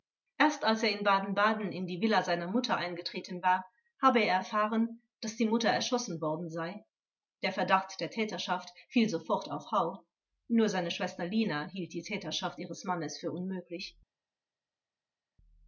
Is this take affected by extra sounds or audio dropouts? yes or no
no